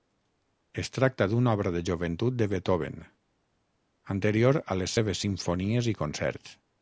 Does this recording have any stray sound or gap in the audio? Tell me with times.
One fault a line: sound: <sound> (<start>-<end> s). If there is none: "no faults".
no faults